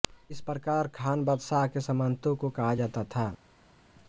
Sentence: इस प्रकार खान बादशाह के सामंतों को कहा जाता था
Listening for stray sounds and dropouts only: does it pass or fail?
pass